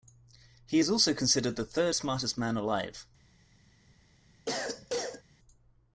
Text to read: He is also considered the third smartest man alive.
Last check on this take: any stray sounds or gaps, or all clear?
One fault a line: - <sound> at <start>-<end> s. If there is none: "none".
- cough at 4.5-5.2 s